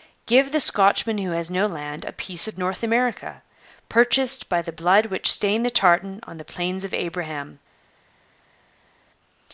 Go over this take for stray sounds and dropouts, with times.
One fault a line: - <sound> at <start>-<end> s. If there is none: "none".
none